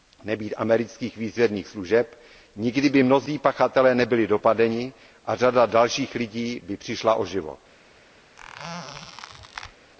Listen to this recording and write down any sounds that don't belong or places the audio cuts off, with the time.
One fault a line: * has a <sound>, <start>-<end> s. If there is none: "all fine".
* has a squeak, 8.4-9.7 s